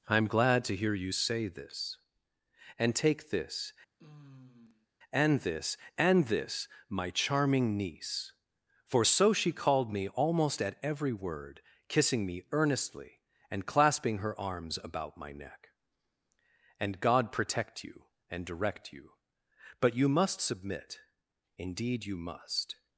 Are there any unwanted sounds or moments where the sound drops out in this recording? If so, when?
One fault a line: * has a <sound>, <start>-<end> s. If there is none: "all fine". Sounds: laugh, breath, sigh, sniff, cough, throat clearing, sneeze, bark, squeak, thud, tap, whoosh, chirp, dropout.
* has a sigh, 4.0-4.9 s